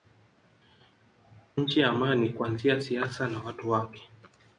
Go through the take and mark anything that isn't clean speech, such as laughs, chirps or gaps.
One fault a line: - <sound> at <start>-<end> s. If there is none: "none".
none